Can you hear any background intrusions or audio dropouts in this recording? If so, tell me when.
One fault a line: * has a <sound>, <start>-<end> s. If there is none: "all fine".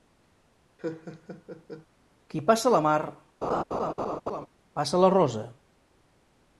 * has a laugh, 0.8-1.9 s
* has a laugh, 3.4-4.5 s